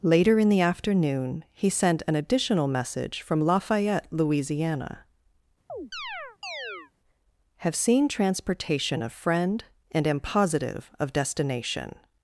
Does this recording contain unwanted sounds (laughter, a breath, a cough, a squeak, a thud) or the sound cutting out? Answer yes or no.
yes